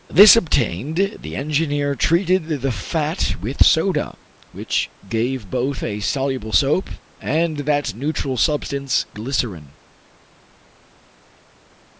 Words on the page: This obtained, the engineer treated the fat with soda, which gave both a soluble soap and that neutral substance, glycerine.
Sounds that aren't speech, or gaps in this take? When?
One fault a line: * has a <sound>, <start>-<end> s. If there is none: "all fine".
all fine